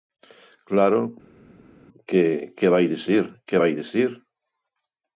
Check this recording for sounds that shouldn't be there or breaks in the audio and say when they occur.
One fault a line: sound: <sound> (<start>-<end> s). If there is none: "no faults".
no faults